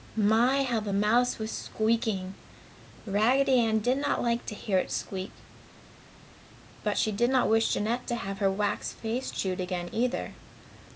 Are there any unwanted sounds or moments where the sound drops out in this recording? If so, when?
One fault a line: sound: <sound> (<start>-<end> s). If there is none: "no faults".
no faults